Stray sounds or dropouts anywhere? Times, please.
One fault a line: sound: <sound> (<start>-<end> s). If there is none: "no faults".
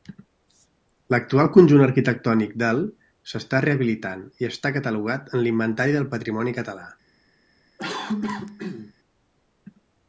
sound: cough (7.8-8.9 s)